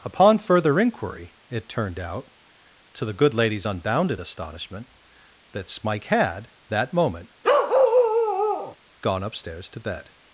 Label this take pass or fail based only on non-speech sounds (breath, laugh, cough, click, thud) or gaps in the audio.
fail